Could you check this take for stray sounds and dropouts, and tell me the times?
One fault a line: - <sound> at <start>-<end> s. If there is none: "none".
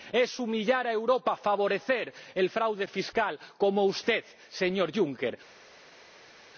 none